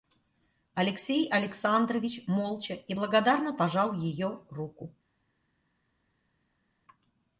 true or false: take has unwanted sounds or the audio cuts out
false